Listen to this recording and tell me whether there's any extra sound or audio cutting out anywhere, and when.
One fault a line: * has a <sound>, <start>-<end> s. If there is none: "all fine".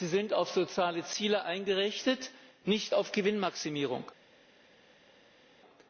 all fine